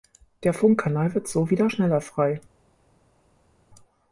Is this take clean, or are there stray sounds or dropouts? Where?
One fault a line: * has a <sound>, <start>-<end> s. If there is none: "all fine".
all fine